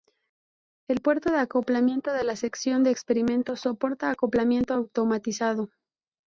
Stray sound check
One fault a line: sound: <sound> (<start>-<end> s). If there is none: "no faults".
no faults